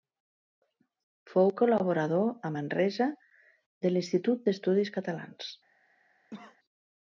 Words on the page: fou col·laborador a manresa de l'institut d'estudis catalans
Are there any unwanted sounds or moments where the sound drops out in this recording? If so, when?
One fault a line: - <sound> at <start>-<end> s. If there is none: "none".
- cough at 6.3-6.6 s